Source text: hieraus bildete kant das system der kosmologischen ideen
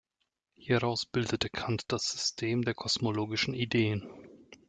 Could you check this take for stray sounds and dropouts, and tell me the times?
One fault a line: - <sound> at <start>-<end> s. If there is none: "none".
none